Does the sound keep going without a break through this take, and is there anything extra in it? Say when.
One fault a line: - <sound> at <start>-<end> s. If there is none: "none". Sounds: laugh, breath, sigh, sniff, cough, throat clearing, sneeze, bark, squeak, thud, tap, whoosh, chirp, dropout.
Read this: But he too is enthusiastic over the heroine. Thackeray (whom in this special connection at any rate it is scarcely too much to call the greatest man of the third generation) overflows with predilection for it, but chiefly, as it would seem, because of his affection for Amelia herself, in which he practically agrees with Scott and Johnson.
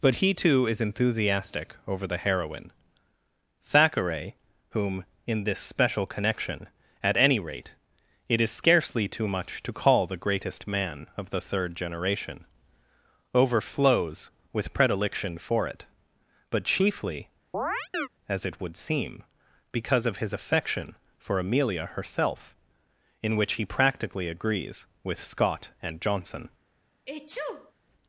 - chirp at 17.5-18.1 s
- sneeze at 27.1-27.7 s